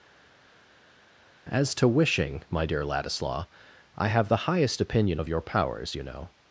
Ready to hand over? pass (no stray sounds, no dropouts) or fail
pass